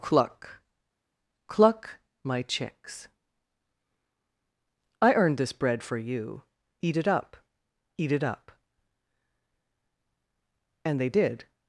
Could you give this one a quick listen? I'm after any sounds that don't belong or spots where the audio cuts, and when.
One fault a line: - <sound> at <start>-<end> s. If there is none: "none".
none